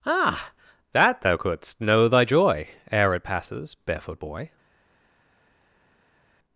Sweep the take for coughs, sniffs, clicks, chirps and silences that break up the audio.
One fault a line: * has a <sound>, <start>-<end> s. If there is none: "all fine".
all fine